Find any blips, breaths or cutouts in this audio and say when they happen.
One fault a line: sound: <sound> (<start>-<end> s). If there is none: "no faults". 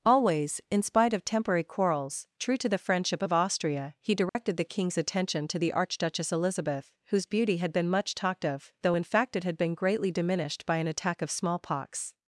sound: dropout (4.3-4.4 s)